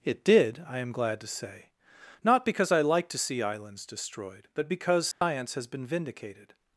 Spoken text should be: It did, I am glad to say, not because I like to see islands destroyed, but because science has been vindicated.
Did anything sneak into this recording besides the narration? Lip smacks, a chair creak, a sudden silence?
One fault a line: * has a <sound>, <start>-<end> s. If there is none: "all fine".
* has a dropout, 5.1-5.2 s